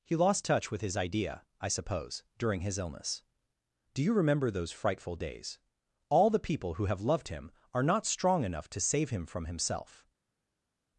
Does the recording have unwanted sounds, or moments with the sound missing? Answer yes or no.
no